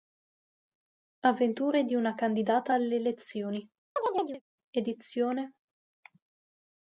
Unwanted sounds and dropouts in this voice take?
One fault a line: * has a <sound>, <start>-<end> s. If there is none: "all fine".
* has a chirp, 4.0-4.4 s